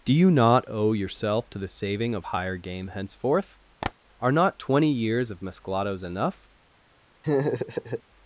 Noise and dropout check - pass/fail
fail